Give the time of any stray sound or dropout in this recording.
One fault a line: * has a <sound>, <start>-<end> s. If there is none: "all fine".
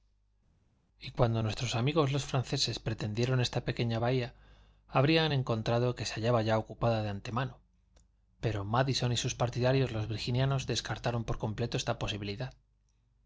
all fine